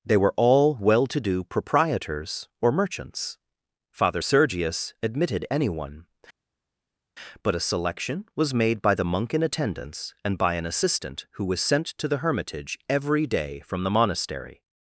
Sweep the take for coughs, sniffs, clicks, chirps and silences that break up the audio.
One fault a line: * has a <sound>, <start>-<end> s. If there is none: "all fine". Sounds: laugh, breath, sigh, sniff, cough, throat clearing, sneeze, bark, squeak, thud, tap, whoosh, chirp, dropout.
all fine